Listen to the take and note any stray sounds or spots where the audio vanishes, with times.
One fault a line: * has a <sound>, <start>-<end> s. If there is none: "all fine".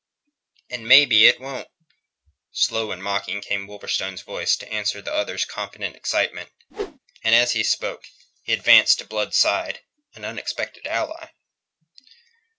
* has a whoosh, 6.7-7.0 s